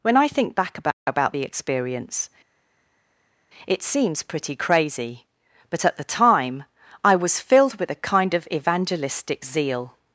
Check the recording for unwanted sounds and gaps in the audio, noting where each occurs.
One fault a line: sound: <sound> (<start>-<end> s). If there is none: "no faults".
no faults